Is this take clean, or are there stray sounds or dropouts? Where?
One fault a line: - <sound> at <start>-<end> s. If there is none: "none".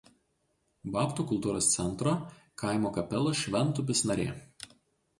none